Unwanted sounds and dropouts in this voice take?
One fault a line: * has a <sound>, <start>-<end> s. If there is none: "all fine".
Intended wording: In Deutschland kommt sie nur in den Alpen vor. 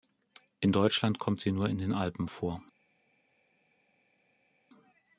all fine